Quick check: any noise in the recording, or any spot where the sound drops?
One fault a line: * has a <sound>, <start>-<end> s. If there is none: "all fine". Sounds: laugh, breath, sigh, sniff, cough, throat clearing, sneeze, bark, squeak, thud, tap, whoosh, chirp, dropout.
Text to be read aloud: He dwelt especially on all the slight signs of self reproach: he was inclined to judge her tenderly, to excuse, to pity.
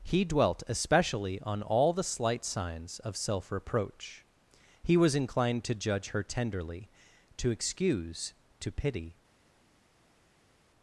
all fine